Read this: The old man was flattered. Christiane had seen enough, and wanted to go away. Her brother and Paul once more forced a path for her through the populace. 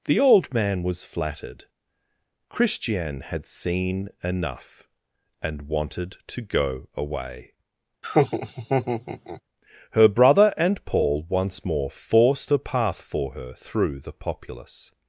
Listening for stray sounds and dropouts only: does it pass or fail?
fail